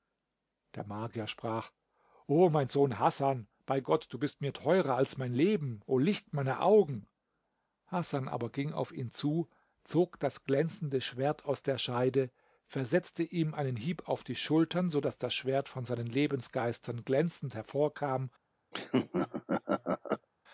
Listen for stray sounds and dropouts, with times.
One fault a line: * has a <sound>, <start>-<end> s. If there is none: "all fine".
* has a laugh, 18.7-20.3 s